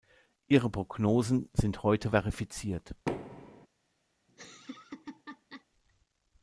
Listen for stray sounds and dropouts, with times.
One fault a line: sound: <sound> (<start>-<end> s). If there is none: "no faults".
sound: thud (3.1-3.7 s)
sound: laugh (4.3-5.7 s)